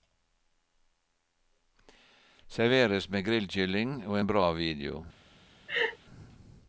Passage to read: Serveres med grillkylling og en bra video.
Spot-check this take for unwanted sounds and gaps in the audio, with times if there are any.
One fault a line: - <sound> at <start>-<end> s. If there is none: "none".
- laugh at 5.7-6.0 s